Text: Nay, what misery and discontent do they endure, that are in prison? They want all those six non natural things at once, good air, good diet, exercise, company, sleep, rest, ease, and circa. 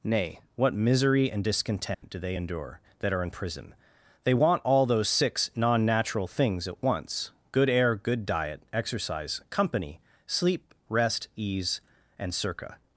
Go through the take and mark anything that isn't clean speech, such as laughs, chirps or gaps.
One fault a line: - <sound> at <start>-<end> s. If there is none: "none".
- dropout at 1.9-2.0 s